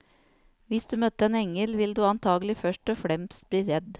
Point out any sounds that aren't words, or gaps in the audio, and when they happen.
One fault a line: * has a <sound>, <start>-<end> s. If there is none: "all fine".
all fine